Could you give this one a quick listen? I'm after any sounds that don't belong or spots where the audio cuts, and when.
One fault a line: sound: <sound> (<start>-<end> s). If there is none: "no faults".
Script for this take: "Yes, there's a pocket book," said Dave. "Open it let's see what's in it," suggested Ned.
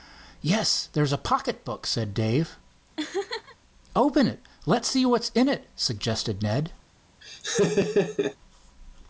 sound: laugh (3.0-3.6 s)
sound: laugh (7.2-8.4 s)